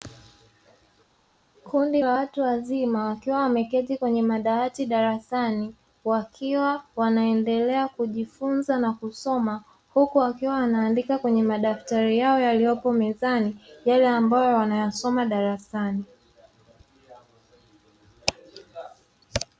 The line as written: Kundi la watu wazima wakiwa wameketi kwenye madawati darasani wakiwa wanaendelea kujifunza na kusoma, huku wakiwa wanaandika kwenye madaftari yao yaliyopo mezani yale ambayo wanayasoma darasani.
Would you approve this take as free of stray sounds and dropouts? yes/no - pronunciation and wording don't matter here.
yes